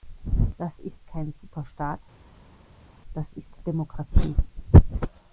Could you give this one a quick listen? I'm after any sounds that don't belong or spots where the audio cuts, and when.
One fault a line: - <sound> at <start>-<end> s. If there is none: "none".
none